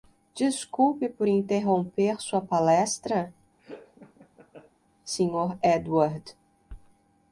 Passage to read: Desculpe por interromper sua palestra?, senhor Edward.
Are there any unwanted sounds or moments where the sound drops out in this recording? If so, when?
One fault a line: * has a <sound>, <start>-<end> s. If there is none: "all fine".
* has a laugh, 3.6-4.7 s